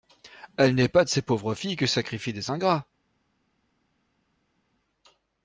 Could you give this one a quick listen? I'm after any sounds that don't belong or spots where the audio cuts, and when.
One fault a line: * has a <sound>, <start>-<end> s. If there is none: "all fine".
all fine